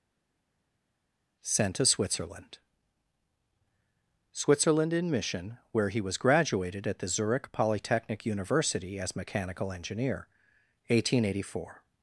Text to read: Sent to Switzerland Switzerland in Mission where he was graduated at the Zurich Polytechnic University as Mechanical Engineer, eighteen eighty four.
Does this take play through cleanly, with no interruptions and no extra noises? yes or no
yes